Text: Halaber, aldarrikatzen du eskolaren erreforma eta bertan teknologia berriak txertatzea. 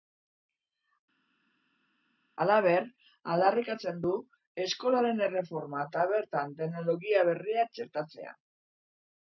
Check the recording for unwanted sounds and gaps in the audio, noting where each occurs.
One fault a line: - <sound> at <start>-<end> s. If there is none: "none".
none